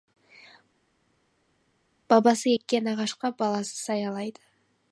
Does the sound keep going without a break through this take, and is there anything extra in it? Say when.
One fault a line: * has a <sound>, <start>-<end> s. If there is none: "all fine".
all fine